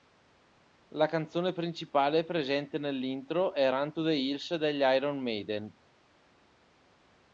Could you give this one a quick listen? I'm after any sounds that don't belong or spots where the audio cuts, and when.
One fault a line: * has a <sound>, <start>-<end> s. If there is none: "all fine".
all fine